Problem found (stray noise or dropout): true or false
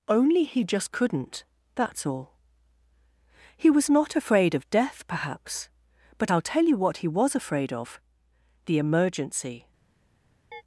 true